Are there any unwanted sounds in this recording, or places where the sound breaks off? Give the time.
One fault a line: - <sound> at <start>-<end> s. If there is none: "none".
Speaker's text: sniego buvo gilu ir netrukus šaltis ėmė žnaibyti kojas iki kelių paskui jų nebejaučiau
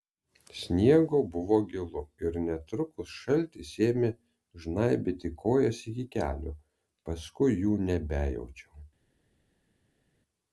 none